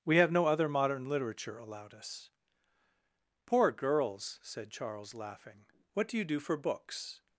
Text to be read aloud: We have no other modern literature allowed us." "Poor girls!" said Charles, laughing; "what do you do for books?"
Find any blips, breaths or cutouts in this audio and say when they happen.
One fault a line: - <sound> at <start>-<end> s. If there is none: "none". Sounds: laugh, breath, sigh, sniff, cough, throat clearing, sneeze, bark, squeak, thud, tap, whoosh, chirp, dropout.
none